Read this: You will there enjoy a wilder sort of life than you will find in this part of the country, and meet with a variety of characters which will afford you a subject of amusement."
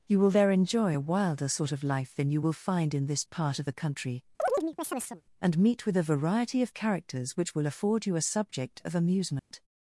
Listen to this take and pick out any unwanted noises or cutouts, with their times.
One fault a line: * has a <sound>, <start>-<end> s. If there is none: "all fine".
* has a chirp, 4.4-5.2 s
* has a dropout, 9.4-9.5 s